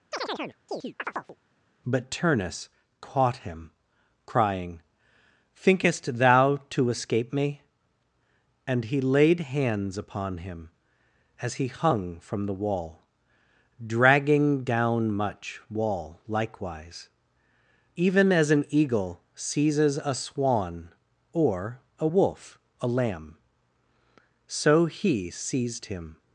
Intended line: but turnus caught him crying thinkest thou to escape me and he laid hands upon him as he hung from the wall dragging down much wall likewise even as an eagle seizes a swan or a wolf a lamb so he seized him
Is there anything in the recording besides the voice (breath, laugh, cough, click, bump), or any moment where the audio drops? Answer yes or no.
yes